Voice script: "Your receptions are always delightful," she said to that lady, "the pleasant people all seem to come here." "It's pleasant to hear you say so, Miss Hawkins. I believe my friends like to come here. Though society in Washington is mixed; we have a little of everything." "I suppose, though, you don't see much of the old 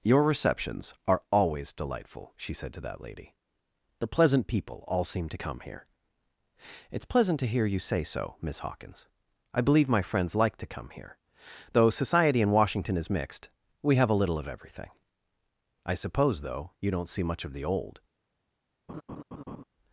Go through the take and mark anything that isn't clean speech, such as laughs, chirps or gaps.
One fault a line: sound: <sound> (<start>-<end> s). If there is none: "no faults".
sound: laugh (18.9-19.6 s)